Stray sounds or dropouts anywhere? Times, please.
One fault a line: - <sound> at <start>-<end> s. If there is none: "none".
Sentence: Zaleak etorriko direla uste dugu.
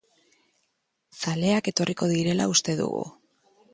none